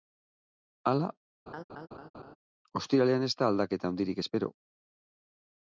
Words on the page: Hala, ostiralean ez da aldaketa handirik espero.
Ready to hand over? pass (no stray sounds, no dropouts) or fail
fail